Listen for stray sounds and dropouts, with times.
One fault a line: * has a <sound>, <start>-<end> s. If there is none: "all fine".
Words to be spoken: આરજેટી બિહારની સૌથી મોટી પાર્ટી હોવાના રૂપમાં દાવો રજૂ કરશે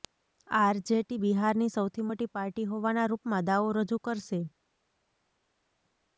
all fine